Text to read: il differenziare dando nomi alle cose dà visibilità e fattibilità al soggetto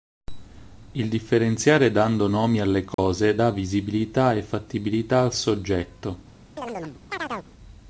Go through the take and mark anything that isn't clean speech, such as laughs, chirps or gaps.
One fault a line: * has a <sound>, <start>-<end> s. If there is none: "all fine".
* has a dropout, 2.9-3.0 s
* has a chirp, 6.6-7.5 s